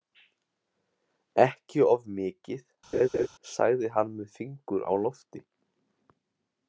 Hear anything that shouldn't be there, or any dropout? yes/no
yes